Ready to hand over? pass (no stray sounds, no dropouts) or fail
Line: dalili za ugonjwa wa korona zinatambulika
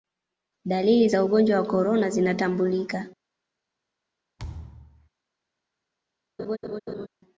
fail